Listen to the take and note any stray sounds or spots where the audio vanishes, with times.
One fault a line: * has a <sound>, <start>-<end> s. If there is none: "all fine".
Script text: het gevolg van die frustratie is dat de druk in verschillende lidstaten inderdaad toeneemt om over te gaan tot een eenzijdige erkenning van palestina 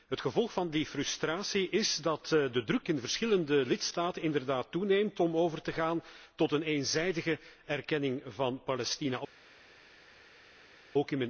all fine